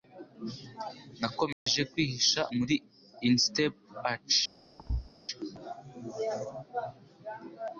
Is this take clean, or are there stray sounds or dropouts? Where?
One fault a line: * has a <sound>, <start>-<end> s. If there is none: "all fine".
* has a dropout, 1.5-1.7 s
* has a thud, 4.8-5.1 s